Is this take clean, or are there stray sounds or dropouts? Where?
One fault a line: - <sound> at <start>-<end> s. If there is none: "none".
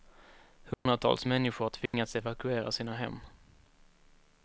- dropout at 0.7-0.9 s
- dropout at 1.9-1.9 s